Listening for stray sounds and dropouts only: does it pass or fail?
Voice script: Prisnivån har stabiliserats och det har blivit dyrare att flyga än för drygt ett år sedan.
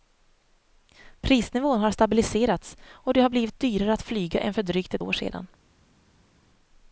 pass